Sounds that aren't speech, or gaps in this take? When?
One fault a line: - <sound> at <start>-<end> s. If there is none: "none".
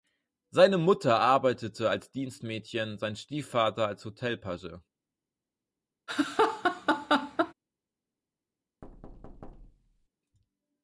- laugh at 6.1-7.5 s
- thud at 8.8-10.1 s